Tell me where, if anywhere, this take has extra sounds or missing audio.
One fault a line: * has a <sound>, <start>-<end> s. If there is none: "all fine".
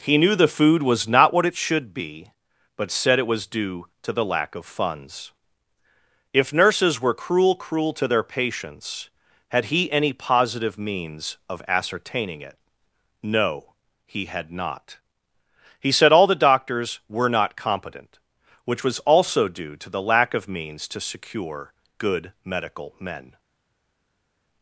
all fine